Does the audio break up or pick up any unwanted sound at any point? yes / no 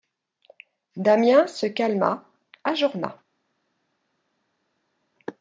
no